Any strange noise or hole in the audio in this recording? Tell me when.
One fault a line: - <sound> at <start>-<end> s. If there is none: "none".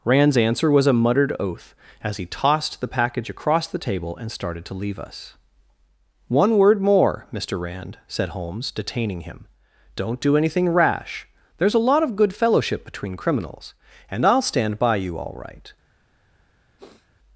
- sniff at 16.8-17.1 s